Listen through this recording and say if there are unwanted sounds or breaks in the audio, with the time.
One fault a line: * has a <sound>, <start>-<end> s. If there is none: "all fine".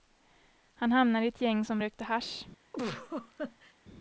* has a laugh, 2.7-3.7 s